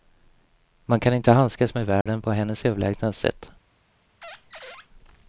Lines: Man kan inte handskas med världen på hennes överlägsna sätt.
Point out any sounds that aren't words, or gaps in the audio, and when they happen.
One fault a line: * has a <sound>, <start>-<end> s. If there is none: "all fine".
* has a dropout, 2.0-2.1 s
* has a squeak, 4.2-4.9 s